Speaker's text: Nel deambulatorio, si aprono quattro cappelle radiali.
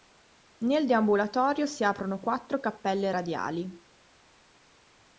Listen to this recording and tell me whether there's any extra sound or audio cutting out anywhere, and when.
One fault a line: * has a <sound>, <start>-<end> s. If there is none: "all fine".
all fine